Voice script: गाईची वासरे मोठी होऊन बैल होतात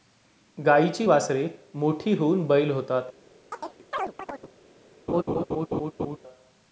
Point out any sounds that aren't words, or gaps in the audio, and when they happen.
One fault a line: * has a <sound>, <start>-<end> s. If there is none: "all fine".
* has a chirp, 3.5-4.5 s
* has a laugh, 5.1-6.2 s